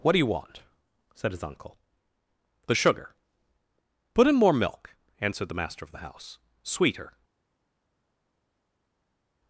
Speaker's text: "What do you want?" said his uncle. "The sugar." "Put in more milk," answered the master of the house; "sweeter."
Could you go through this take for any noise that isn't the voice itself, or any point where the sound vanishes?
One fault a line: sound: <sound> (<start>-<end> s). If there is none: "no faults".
no faults